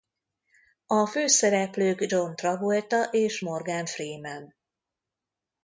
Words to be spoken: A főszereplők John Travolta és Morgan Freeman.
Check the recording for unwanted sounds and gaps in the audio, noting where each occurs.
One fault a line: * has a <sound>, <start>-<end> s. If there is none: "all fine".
all fine